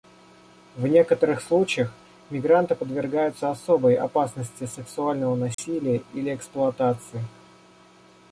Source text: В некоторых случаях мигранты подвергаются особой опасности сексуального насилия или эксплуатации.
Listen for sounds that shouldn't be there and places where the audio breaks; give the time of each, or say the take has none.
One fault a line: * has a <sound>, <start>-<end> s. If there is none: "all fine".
* has a dropout, 5.5-5.6 s